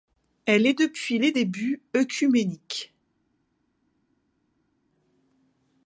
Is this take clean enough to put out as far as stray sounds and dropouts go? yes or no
yes